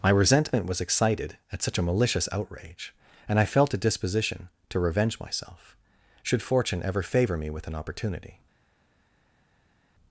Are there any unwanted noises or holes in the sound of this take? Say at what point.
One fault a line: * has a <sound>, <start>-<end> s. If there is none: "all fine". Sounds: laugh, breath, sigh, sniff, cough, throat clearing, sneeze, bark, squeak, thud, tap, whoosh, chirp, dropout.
all fine